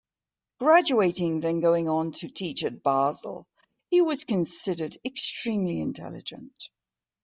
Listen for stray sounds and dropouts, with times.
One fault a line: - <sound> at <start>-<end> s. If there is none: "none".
none